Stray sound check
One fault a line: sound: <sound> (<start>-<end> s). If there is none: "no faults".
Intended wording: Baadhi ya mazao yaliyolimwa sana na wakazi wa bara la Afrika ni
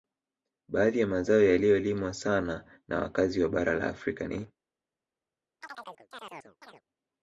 sound: chirp (5.6-6.8 s)